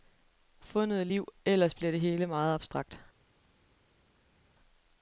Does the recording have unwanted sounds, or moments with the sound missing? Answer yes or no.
no